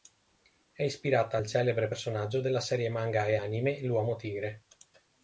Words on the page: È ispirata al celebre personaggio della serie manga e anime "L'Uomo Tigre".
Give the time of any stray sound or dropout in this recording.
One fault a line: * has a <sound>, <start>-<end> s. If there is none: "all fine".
all fine